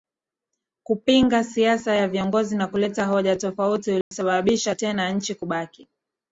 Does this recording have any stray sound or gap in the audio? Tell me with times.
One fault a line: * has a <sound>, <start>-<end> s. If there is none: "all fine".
* has a dropout, 4.0-4.1 s